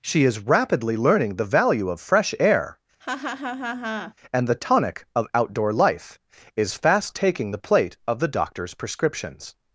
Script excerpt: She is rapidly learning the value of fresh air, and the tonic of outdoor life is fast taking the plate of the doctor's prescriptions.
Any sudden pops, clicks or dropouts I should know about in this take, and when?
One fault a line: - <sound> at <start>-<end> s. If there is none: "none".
- laugh at 3.0-4.1 s